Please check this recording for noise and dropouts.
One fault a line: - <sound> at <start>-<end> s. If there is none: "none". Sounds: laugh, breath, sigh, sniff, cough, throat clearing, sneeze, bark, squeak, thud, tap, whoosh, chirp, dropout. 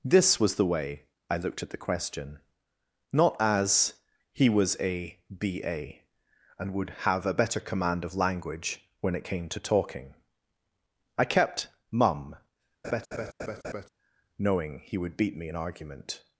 - laugh at 12.8-13.9 s